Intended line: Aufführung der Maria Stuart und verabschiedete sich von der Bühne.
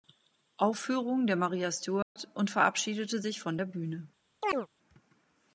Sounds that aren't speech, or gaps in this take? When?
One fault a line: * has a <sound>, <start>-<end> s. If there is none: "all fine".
* has a dropout, 2.0-2.2 s
* has a chirp, 4.4-4.7 s